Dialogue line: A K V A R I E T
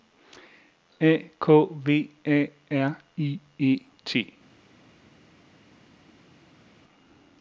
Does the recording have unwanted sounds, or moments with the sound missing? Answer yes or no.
no